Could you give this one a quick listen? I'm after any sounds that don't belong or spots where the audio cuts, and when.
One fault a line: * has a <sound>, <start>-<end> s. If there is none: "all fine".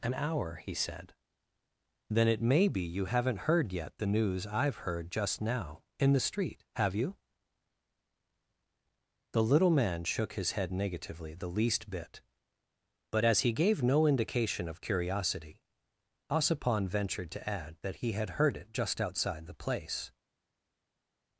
all fine